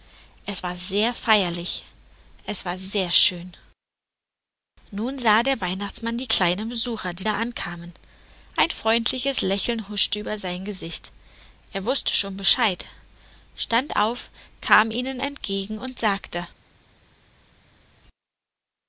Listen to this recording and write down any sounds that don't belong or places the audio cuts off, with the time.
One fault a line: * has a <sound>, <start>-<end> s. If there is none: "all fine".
all fine